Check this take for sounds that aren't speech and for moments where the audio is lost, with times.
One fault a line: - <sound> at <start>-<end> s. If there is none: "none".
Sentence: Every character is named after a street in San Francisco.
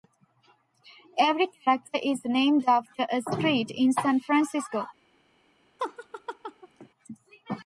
- laugh at 5.8-6.9 s